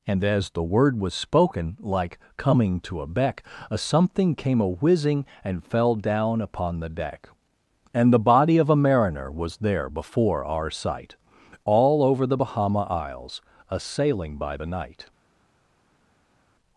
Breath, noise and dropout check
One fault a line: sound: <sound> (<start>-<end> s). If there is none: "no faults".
no faults